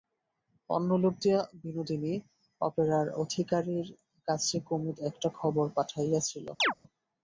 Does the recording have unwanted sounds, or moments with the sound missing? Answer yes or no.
yes